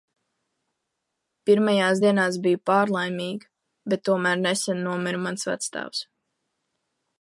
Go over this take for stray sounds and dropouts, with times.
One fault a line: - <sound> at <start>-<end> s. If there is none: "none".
none